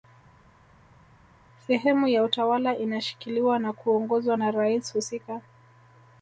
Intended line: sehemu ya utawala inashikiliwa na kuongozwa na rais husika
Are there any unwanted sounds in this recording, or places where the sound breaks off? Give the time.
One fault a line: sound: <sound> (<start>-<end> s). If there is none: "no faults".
no faults